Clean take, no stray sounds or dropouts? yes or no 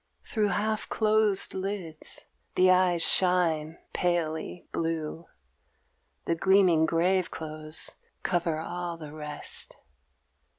yes